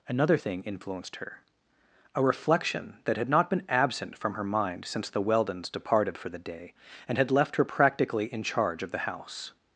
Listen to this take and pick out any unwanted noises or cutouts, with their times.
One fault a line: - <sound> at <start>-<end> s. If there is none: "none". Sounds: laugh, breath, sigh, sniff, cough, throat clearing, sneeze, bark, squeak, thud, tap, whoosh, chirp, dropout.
none